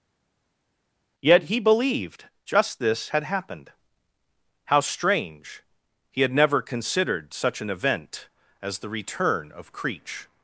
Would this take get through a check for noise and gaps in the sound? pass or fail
pass